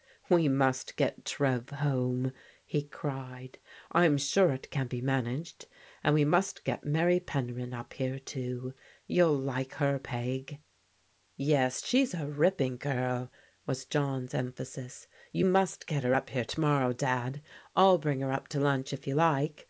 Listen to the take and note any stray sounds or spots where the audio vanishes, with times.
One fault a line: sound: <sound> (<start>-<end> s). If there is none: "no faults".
no faults